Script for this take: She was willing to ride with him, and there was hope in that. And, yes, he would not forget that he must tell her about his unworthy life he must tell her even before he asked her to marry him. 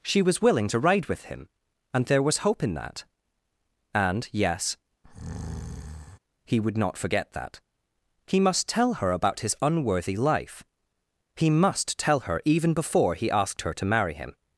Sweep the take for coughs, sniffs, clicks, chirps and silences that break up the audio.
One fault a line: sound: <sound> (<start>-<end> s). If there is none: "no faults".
sound: breath (5.0-6.2 s)